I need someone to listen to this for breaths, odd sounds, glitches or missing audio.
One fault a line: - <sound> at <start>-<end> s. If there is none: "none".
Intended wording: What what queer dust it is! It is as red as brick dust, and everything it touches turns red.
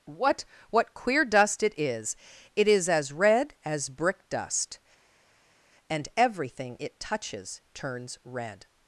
none